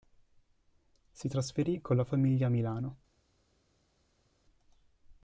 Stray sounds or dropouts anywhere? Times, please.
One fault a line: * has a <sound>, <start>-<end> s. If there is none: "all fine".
all fine